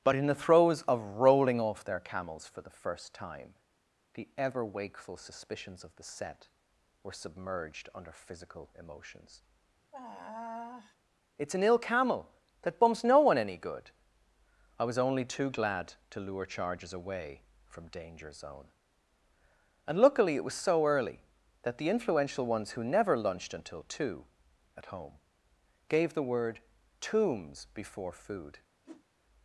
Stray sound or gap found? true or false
true